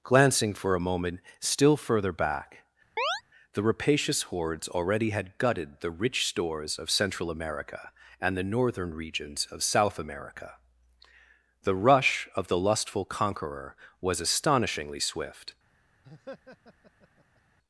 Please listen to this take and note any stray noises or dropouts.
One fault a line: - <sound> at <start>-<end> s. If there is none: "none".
- chirp at 3.0-3.2 s
- laugh at 16.0-17.4 s